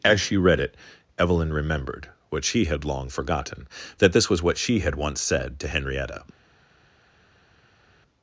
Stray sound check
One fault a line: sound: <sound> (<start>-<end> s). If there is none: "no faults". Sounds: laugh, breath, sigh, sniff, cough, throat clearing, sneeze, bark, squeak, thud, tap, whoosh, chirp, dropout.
no faults